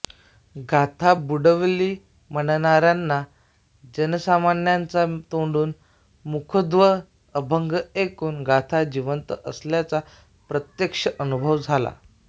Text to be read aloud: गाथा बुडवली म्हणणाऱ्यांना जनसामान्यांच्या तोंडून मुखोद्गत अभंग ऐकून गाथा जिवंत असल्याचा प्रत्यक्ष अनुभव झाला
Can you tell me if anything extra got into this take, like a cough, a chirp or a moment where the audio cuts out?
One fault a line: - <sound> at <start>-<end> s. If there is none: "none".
none